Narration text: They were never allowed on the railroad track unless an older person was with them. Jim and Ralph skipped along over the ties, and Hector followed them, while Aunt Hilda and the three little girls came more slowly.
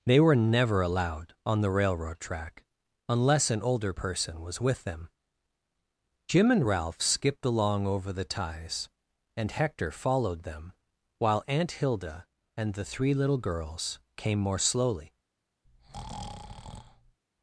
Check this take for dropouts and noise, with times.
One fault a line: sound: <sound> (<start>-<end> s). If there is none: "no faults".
sound: breath (15.6-17.2 s)